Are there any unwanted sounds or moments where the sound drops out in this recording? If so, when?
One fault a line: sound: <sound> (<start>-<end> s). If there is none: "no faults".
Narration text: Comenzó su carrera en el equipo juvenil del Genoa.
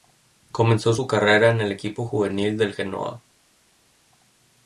no faults